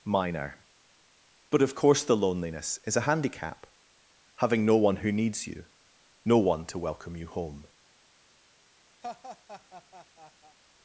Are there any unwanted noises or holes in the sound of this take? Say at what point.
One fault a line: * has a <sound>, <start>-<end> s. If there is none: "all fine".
* has a laugh, 9.0-10.6 s